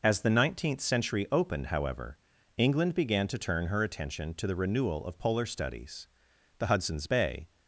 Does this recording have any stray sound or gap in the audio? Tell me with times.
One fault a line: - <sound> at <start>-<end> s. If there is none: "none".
none